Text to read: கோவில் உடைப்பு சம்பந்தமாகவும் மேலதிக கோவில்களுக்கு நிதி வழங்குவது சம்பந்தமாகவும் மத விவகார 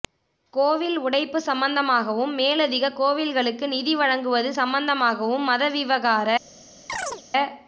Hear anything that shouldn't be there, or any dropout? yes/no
yes